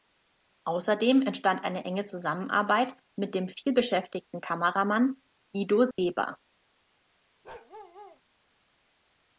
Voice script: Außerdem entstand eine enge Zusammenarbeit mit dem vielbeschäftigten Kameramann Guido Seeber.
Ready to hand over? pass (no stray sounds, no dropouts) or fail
fail